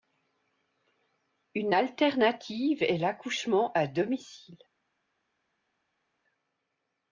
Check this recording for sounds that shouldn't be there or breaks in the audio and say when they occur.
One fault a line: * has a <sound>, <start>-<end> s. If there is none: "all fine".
all fine